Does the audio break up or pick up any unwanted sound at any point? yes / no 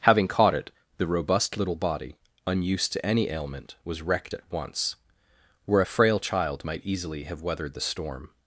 no